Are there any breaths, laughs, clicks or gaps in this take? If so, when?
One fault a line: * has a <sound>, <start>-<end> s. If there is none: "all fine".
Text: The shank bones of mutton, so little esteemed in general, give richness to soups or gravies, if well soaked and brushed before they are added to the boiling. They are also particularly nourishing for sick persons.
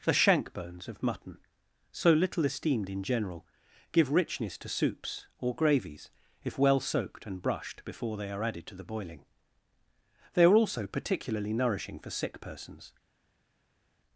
all fine